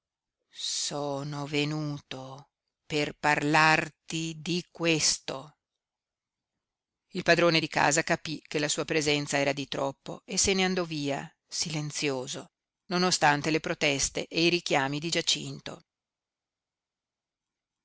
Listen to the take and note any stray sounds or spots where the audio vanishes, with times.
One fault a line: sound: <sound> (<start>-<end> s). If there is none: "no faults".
no faults